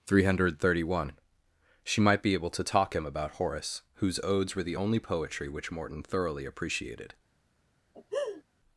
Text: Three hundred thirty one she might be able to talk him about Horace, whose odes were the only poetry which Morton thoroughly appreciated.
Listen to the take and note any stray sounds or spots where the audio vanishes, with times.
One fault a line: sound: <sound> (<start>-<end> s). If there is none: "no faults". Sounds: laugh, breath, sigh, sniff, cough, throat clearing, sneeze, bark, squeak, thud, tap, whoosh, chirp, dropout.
sound: laugh (7.9-8.4 s)